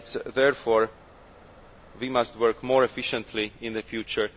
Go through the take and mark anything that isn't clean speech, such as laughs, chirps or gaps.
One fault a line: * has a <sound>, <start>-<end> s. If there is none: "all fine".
all fine